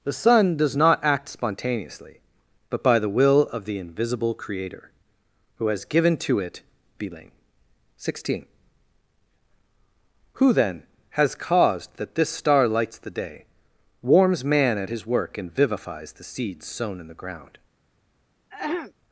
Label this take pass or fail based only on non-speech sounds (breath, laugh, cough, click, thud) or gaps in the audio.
fail